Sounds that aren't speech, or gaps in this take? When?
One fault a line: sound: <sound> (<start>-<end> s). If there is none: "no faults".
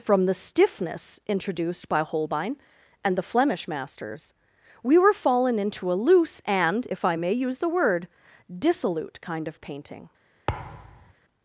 sound: thud (10.5-11.1 s)